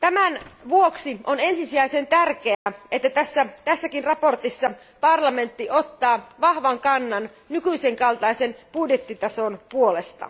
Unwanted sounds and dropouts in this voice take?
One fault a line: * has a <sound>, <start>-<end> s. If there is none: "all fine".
* has a dropout, 2.5-2.7 s